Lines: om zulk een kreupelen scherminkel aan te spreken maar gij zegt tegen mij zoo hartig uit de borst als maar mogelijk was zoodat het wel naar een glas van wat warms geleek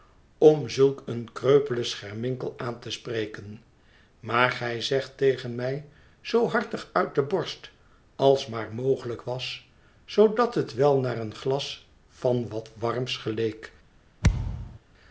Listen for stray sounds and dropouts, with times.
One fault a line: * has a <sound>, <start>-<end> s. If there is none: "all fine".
* has a thud, 14.2-14.8 s